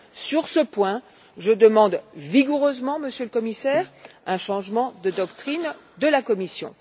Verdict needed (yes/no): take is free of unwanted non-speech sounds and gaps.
yes